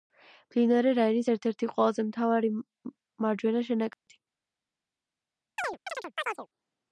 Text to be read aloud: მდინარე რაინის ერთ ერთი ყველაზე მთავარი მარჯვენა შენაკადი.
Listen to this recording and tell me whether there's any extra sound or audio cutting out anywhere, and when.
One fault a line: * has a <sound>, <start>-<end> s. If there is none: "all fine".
* has a dropout, 3.9-4.1 s
* has a chirp, 5.6-6.5 s